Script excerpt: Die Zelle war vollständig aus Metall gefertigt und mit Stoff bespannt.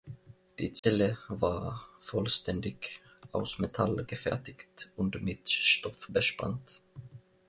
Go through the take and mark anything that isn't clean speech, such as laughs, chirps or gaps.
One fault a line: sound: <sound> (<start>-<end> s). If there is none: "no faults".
sound: dropout (0.8-0.8 s)